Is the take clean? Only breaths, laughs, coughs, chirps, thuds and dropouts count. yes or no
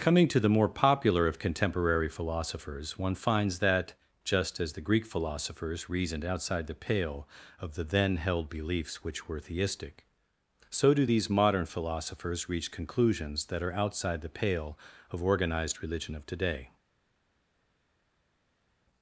yes